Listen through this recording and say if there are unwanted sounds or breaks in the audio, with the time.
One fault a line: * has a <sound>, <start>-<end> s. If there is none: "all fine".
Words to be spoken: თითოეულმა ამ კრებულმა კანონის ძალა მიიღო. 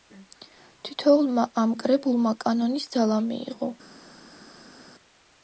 all fine